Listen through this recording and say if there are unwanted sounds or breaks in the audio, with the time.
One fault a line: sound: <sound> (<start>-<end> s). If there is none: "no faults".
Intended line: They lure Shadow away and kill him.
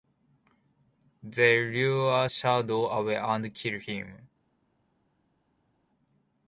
no faults